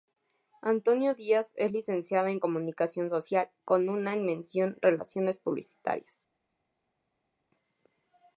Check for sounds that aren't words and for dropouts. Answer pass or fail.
pass